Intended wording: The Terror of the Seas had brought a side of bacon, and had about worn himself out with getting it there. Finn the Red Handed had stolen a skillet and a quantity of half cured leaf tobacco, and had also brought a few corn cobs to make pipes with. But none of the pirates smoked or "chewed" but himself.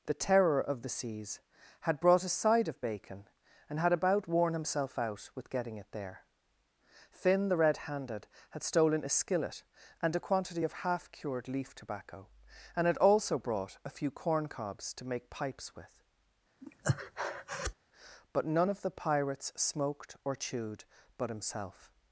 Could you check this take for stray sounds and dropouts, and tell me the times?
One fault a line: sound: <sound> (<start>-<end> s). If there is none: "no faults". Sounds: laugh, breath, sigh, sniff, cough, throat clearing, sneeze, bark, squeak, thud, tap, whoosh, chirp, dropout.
sound: breath (16.6-17.7 s)